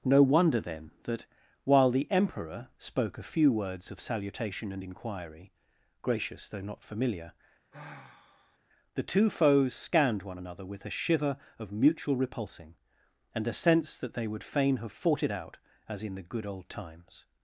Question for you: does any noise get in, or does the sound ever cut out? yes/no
yes